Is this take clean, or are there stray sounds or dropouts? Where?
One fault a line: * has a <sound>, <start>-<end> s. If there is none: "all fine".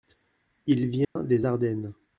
* has a dropout, 1.0-1.2 s